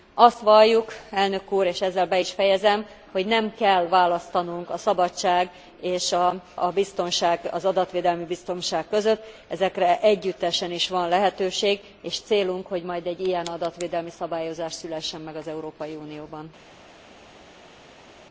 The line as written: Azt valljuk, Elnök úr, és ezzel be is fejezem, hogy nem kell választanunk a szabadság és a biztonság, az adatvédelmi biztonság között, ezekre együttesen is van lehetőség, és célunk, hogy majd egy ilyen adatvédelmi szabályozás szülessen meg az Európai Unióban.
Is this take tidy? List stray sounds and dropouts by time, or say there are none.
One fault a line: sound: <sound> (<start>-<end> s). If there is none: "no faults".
no faults